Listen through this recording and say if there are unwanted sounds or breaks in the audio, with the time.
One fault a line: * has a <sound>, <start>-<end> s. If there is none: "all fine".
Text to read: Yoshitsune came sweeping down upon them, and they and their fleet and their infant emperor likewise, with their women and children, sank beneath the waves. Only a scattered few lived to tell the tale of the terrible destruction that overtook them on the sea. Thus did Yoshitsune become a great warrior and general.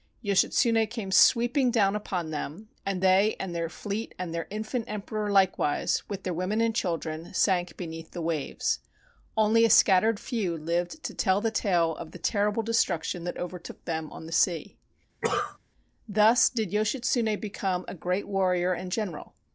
* has a cough, 15.2-15.6 s